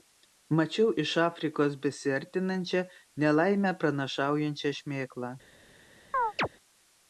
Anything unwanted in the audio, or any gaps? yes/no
yes